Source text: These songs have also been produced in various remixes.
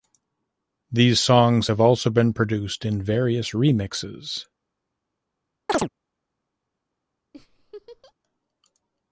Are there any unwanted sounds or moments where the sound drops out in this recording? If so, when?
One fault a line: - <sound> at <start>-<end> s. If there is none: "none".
- chirp at 5.7-5.9 s
- laugh at 7.3-8.1 s